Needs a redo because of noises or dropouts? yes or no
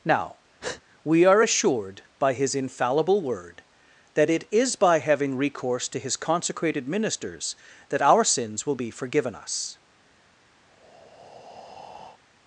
yes